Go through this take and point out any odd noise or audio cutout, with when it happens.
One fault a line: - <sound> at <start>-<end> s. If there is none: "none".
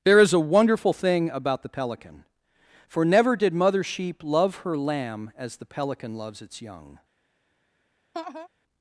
- laugh at 8.1-8.5 s